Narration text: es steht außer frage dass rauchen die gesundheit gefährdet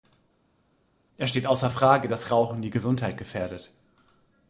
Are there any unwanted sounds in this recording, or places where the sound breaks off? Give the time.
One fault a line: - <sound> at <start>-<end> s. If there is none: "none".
none